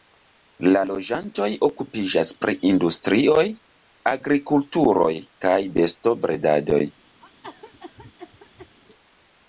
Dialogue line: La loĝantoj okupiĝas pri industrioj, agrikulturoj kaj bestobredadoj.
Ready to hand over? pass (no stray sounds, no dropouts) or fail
fail